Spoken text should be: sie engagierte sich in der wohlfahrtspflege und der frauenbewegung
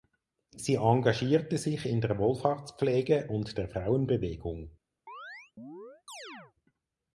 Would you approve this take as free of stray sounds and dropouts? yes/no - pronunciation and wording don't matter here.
no